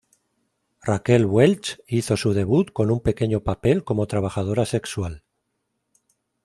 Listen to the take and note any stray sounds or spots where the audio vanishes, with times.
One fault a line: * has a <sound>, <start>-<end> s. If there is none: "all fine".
all fine